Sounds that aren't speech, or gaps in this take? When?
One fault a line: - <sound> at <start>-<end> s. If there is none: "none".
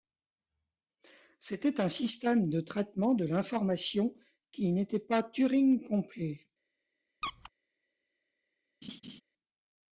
- squeak at 7.2-7.5 s
- laugh at 8.8-9.2 s